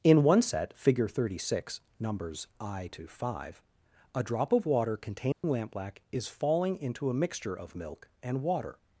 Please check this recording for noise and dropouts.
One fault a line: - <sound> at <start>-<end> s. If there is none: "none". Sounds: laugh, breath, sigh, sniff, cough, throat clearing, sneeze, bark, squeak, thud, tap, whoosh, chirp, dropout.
- dropout at 5.3-5.4 s